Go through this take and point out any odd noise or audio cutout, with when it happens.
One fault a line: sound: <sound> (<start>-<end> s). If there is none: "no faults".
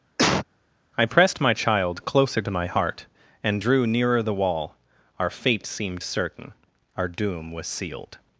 sound: cough (0.2-0.5 s)